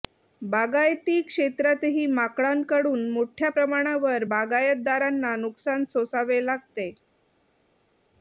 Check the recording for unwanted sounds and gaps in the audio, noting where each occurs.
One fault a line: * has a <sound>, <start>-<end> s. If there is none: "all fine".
all fine